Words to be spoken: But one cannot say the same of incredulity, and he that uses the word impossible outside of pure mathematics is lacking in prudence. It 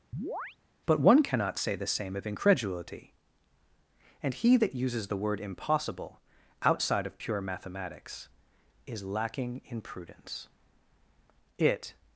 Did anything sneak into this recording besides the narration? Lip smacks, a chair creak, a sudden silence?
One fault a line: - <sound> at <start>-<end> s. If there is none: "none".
- chirp at 0.1-0.6 s